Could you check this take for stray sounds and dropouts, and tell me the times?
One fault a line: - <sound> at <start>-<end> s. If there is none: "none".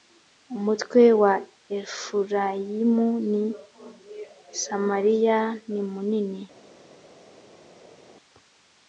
none